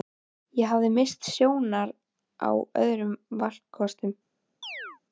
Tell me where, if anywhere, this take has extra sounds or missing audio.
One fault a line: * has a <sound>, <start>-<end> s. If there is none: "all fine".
* has a chirp, 4.6-5.0 s